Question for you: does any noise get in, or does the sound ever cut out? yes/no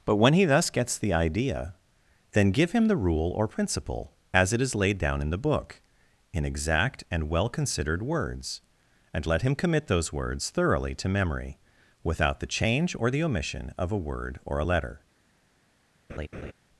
yes